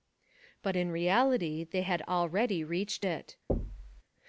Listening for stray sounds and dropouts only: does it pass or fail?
fail